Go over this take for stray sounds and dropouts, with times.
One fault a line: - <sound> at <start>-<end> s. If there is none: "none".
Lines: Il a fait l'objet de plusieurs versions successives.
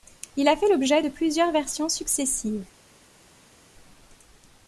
none